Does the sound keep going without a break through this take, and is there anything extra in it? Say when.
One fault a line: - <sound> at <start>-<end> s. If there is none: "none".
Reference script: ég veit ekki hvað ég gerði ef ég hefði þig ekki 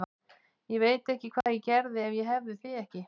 - dropout at 1.4-1.5 s